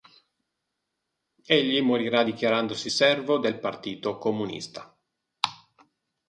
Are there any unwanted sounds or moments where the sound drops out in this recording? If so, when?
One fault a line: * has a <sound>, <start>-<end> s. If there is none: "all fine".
all fine